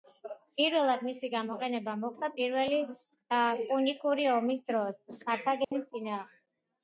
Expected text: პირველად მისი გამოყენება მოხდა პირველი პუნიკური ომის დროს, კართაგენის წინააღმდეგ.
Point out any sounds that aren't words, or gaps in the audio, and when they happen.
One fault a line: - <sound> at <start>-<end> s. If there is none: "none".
- dropout at 5.6-5.7 s